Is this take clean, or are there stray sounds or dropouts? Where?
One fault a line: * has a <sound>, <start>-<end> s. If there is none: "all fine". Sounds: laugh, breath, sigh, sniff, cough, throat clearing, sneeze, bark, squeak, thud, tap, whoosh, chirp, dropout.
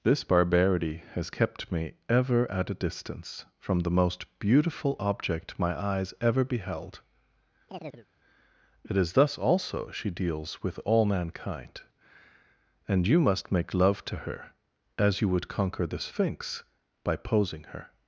* has a chirp, 7.7-8.1 s